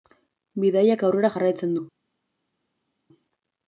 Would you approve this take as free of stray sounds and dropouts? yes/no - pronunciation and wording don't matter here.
yes